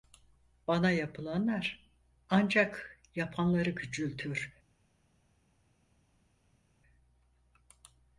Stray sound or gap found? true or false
false